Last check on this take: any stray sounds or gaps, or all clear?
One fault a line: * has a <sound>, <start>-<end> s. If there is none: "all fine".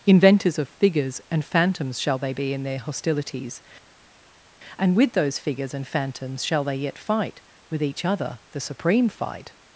all fine